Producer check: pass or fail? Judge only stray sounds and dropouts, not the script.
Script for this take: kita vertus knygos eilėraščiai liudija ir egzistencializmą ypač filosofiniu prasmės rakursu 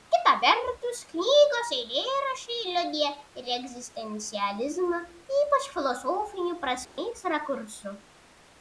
fail